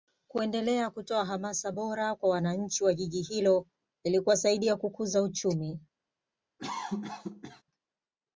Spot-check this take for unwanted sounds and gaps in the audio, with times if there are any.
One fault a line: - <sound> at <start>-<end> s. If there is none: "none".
- cough at 6.6-7.6 s